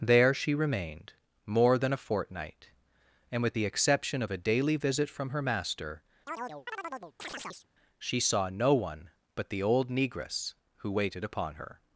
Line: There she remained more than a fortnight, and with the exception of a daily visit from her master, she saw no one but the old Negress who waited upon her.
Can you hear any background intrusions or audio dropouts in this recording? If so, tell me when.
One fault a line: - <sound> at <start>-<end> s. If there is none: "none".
- chirp at 6.3-7.7 s